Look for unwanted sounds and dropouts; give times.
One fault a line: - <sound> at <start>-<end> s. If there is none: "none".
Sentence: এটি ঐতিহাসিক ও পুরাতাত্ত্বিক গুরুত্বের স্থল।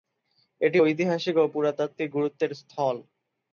none